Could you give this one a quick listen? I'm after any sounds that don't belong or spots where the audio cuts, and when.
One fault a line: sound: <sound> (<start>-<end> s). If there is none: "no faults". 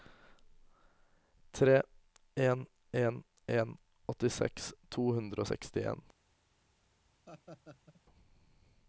sound: laugh (7.3-8.0 s)